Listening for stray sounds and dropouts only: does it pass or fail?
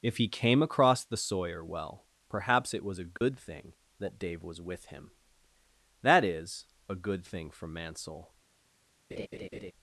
fail